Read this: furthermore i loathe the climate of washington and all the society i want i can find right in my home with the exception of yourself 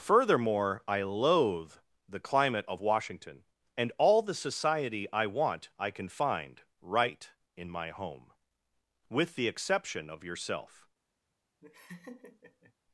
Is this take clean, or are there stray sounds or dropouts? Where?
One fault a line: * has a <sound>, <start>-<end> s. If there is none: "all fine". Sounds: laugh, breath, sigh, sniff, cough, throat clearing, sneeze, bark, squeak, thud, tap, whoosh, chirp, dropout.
* has a laugh, 11.6-12.7 s